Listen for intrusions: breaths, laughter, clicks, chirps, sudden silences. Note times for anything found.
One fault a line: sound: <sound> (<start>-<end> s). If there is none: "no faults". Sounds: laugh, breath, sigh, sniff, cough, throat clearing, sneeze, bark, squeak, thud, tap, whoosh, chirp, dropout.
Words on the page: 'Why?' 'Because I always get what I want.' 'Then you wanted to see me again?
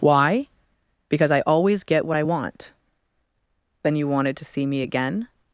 no faults